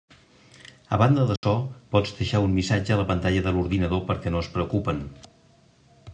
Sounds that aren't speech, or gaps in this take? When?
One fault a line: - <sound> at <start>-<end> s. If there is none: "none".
- dropout at 1.4-1.4 s